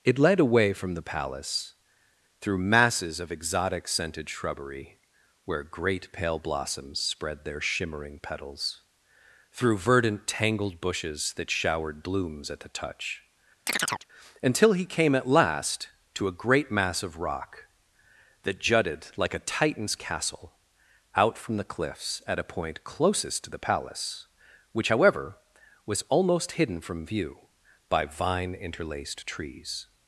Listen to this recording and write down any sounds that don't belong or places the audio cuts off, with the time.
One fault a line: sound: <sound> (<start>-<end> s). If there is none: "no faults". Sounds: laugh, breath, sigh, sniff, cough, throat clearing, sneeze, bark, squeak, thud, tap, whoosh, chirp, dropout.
sound: chirp (13.7-14.1 s)